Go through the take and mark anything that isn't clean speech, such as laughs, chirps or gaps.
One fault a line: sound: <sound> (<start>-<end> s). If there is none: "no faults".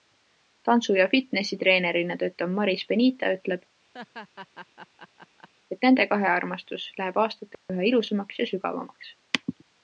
sound: laugh (3.9-5.5 s)
sound: dropout (7.5-7.7 s)